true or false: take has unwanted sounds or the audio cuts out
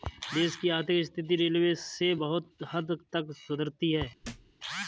true